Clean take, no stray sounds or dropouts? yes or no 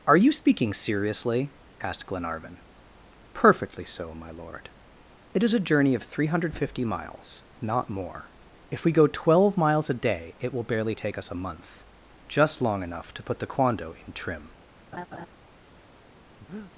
no